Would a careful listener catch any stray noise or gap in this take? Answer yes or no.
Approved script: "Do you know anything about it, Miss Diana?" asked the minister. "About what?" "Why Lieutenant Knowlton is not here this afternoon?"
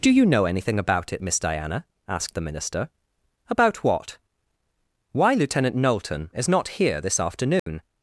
yes